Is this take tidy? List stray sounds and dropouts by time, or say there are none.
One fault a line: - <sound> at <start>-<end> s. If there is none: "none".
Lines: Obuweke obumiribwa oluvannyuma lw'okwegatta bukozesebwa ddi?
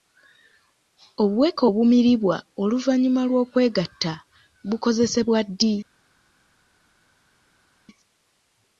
none